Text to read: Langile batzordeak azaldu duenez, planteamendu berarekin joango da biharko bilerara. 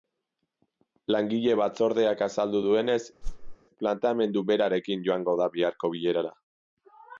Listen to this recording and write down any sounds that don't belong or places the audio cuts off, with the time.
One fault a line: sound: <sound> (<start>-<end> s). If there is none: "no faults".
sound: whoosh (3.2-3.6 s)